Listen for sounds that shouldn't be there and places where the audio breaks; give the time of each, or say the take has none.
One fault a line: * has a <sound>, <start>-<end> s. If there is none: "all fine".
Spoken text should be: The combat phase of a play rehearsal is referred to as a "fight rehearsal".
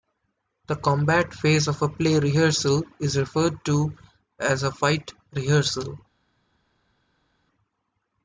all fine